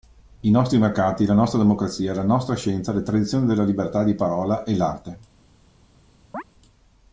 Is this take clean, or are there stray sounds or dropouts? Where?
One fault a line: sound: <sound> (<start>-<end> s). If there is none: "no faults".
sound: chirp (6.3-6.4 s)